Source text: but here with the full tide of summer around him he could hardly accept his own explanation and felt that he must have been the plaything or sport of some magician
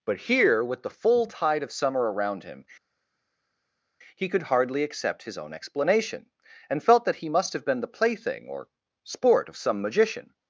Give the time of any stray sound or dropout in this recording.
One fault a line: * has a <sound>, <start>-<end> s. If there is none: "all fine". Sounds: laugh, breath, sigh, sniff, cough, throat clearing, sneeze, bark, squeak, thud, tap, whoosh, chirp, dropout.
all fine